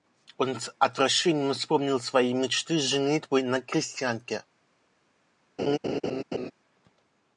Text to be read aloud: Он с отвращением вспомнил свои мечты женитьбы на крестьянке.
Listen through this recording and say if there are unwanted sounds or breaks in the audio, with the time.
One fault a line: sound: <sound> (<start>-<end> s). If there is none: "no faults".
sound: laugh (5.6-6.5 s)